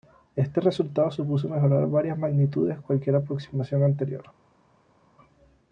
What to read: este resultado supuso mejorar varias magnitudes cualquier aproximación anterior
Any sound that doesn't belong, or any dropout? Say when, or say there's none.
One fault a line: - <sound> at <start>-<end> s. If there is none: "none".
none